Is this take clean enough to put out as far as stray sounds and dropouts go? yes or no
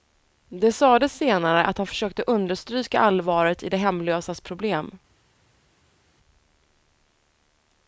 yes